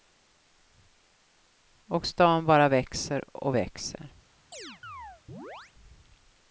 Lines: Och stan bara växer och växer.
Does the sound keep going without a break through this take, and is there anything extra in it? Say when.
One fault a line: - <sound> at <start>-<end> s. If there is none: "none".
- chirp at 4.5-5.7 s